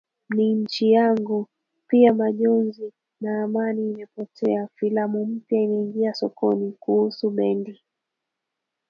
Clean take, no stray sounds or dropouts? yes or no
yes